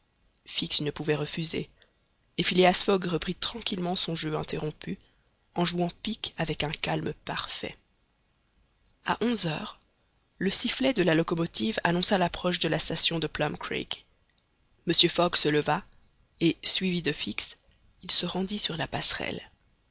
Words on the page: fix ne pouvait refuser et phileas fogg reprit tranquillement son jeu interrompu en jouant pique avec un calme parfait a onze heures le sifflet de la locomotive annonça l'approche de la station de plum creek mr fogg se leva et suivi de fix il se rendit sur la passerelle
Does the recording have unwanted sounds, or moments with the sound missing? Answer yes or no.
no